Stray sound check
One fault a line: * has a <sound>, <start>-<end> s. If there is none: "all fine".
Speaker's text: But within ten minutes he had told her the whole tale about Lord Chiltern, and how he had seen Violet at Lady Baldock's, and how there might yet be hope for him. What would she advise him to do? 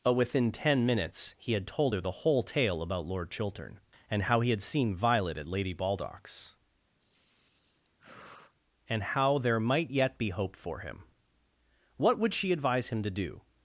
* has a sigh, 7.0-8.5 s